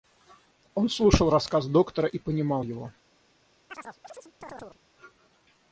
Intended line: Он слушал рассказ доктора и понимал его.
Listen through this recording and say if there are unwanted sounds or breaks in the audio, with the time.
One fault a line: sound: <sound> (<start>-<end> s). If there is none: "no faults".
sound: chirp (3.7-4.8 s)